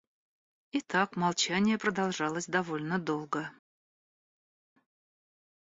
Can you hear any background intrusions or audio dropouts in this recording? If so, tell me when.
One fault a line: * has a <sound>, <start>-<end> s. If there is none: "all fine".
all fine